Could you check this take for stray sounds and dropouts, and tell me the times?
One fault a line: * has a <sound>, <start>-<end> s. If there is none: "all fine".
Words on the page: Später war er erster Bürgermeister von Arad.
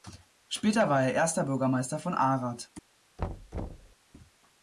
* has a thud, 3.2-4.0 s